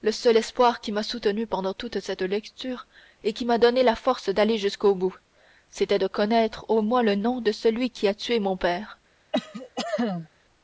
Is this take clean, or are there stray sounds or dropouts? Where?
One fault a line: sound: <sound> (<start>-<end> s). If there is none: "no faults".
sound: cough (9.3-10.3 s)